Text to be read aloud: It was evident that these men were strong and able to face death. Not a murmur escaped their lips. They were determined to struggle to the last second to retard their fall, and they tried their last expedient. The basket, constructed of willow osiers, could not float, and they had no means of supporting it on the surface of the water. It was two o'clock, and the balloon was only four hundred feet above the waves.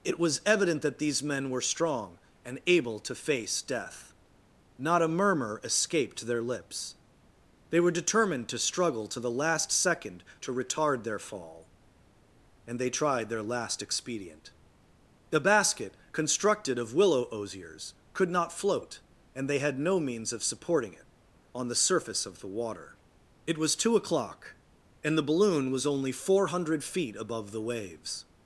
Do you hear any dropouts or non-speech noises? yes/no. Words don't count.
no